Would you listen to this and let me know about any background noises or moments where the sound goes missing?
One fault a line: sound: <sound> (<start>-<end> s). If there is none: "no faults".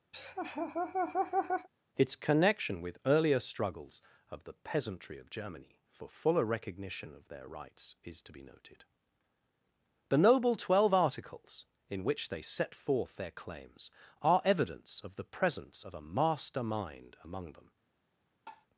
sound: laugh (0.1-1.7 s)
sound: tap (18.5-18.7 s)